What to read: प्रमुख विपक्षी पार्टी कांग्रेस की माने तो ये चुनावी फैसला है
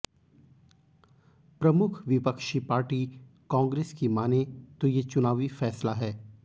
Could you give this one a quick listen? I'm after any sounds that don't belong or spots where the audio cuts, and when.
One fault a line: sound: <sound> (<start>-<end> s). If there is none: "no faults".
no faults